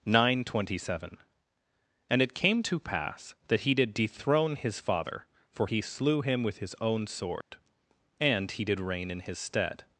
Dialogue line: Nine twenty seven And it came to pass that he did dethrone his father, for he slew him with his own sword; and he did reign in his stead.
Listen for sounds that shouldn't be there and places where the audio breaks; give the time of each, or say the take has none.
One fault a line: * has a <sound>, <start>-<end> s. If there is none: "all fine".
* has a dropout, 7.4-7.5 s